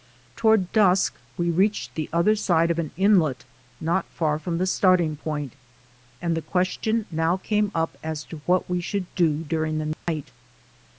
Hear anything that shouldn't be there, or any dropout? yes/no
yes